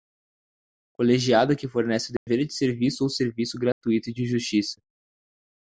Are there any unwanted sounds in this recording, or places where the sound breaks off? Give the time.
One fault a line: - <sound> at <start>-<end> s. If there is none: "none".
- dropout at 2.2-2.3 s
- dropout at 3.7-3.8 s